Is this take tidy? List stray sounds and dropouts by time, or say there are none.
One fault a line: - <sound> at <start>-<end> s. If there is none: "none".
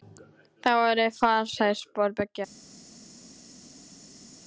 none